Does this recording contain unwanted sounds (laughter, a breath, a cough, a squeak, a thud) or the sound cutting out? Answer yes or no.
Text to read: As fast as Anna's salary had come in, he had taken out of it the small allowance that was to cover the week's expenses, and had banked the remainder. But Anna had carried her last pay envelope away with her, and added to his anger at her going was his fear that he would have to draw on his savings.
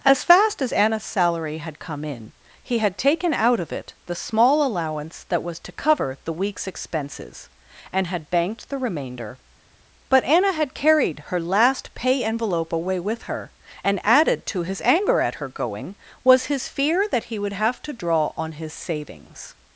no